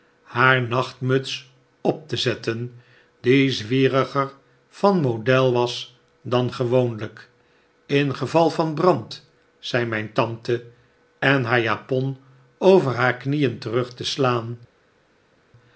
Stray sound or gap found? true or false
false